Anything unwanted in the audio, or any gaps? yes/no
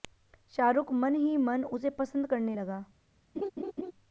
yes